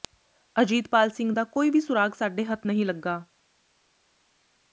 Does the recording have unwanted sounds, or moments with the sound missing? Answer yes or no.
no